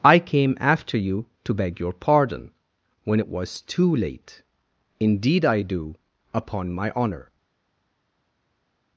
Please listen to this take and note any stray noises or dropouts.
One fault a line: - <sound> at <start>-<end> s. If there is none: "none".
none